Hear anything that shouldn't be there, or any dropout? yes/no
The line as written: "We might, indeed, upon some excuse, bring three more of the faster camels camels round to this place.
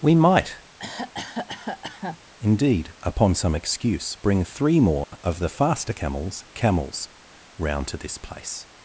yes